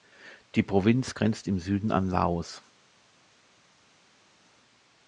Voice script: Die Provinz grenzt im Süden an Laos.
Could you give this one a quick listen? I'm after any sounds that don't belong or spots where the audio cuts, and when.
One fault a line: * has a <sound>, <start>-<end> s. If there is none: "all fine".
all fine